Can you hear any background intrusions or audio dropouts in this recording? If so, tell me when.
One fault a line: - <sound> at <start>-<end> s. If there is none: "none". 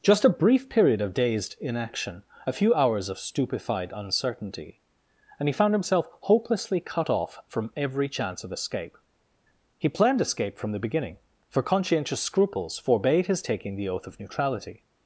none